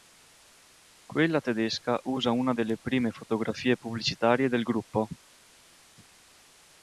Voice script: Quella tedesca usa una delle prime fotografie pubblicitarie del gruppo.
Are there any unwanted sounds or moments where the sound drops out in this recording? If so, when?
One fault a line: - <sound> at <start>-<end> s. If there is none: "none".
none